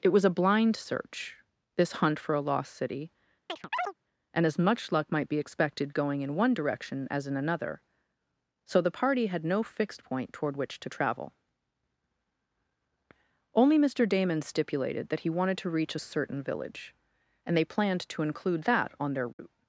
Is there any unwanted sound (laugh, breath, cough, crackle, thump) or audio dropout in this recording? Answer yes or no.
yes